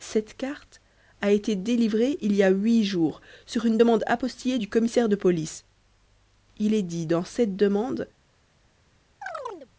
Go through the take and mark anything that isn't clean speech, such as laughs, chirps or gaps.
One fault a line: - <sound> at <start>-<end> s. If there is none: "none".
- chirp at 9.2-9.7 s